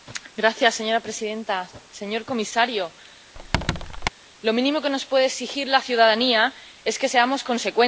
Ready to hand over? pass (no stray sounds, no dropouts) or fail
fail